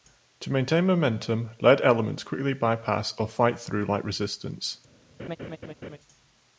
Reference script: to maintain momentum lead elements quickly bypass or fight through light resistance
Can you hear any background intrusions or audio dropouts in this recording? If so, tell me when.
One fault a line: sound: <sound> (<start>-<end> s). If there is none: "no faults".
sound: laugh (5.2-6.0 s)